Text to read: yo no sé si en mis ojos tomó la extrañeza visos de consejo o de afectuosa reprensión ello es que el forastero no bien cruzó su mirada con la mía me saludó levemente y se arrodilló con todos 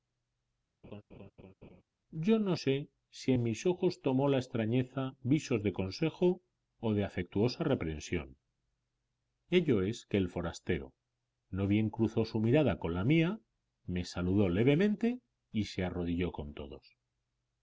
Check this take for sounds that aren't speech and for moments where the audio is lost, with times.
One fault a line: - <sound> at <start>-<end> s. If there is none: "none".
- laugh at 0.8-1.8 s